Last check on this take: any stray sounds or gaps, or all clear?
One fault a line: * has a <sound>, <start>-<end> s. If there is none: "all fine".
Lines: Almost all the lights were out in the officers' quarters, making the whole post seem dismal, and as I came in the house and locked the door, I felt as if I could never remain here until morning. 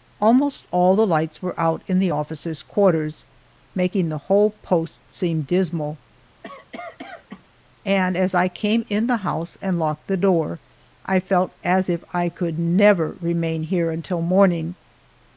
* has a cough, 6.4-7.5 s